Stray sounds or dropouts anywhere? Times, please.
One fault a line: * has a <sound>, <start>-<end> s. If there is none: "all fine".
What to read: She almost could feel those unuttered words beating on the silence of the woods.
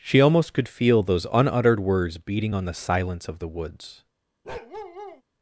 * has a bark, 4.4-5.2 s